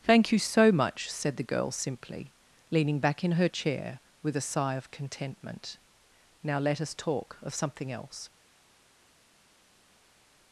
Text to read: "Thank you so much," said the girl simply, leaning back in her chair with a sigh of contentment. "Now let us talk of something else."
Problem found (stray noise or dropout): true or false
false